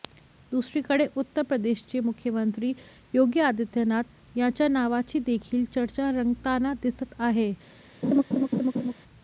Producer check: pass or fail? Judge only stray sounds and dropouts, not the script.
fail